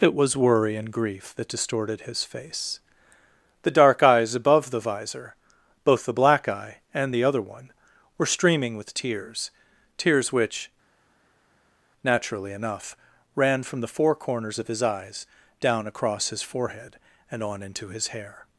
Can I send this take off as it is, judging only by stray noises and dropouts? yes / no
yes